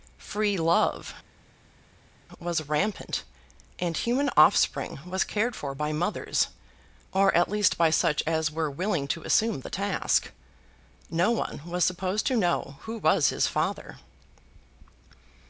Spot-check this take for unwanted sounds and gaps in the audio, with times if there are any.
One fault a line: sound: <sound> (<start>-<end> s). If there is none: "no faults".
no faults